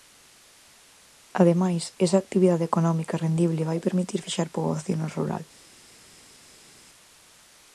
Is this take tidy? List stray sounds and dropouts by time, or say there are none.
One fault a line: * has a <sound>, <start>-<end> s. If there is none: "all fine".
all fine